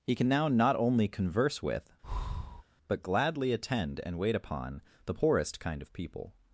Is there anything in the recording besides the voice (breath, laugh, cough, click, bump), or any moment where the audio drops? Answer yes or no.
yes